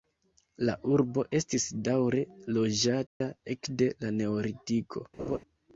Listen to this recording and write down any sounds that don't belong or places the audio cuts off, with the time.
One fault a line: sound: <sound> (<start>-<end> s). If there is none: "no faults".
sound: dropout (3.1-3.2 s)
sound: laugh (5.2-5.4 s)